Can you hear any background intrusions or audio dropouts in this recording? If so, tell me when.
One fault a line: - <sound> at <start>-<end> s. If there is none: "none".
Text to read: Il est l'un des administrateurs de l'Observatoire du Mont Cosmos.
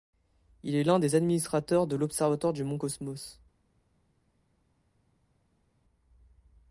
none